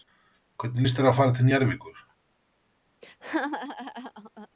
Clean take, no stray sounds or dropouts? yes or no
no